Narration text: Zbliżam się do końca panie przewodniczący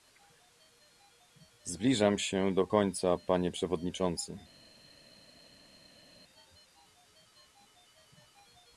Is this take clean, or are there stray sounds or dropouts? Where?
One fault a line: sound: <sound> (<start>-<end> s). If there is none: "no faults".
no faults